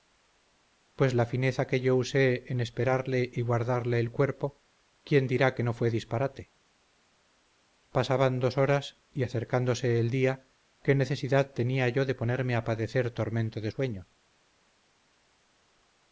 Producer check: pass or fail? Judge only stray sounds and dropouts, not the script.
pass